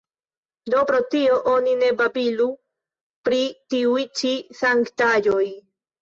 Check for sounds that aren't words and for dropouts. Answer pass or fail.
pass